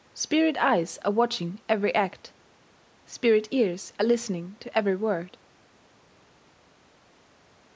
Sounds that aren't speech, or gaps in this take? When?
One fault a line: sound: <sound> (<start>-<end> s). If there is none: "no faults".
no faults